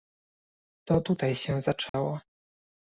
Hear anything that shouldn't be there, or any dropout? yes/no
yes